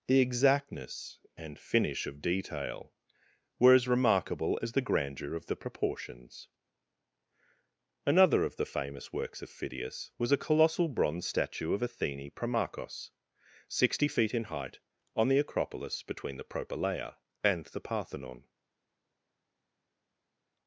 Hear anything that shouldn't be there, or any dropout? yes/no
no